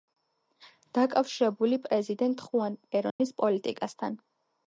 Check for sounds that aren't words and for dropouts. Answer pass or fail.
fail